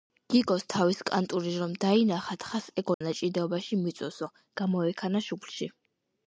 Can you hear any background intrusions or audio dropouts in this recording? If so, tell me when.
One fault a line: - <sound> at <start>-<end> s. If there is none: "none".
- dropout at 2.9-3.0 s